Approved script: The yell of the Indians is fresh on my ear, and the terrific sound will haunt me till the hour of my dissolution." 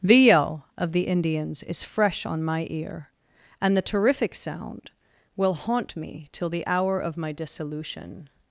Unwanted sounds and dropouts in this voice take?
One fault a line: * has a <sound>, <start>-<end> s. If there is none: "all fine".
all fine